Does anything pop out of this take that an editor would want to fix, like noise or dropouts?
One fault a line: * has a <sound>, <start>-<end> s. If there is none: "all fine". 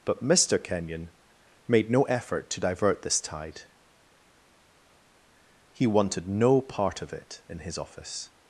all fine